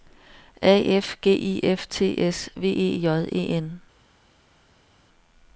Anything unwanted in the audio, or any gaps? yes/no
no